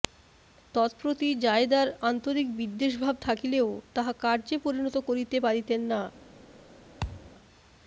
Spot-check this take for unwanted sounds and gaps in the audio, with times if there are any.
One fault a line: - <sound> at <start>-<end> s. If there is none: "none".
- thud at 7.0-7.3 s